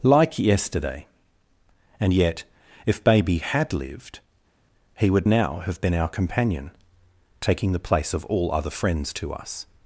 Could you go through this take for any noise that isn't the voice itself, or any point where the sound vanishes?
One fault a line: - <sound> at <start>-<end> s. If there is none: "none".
none